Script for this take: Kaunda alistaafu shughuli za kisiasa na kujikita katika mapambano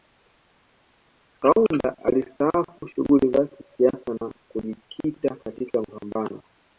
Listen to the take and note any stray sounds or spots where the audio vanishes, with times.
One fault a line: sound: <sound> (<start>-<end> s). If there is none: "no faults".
no faults